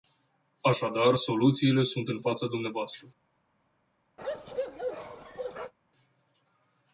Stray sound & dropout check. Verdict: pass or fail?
fail